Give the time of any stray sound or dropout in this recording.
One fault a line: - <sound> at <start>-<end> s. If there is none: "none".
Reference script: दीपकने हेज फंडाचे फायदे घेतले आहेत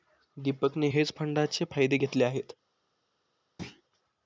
- thud at 3.6-3.8 s